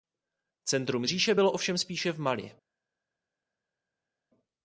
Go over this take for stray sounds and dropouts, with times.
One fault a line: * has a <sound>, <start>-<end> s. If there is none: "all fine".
all fine